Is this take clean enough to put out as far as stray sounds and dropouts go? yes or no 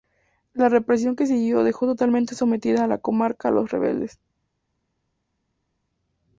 yes